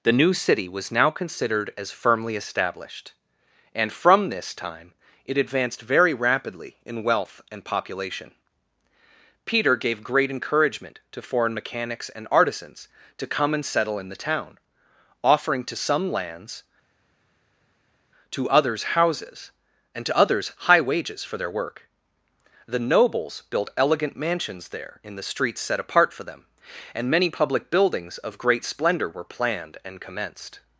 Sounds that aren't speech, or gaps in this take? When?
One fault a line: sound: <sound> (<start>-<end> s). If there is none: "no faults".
no faults